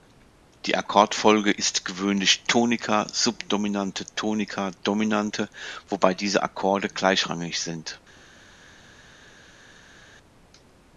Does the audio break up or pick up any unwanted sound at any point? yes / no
no